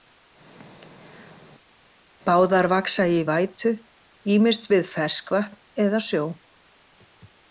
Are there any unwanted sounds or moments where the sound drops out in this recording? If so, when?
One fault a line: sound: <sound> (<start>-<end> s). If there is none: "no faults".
no faults